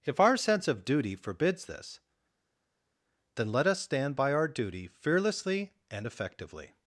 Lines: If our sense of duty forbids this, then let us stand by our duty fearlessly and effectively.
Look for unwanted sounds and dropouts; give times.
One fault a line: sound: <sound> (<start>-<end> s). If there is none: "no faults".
no faults